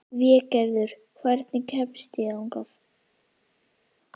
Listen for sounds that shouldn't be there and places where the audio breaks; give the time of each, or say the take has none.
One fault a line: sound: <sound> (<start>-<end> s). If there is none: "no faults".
no faults